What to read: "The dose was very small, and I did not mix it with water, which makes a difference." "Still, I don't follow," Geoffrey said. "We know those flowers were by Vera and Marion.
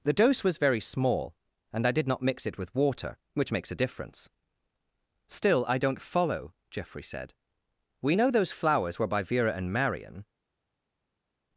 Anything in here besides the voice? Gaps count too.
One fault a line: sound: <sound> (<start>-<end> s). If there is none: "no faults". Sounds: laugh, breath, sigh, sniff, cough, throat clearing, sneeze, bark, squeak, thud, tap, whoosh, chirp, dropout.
no faults